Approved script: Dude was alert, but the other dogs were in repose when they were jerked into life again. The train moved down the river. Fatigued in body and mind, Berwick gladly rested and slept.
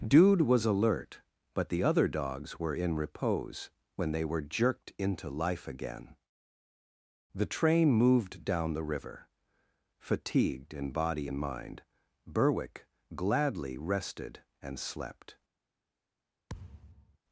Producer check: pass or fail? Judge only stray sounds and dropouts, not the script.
fail